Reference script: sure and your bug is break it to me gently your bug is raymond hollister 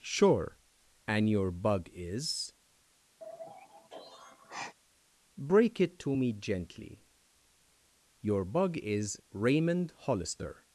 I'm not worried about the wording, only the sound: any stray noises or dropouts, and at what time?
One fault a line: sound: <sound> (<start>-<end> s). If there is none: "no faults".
sound: sigh (3.2-4.7 s)